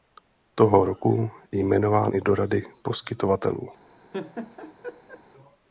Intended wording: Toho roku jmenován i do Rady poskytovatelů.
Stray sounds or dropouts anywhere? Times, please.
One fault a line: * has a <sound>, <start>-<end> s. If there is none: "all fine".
* has a laugh, 4.1-5.2 s